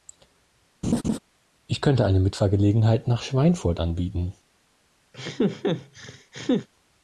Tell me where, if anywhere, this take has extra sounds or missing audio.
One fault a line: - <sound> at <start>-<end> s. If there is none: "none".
- laugh at 0.8-1.2 s
- laugh at 5.1-6.7 s